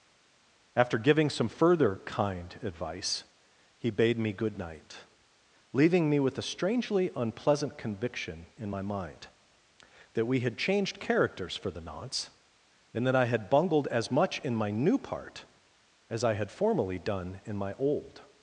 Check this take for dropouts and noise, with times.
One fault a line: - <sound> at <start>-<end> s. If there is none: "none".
none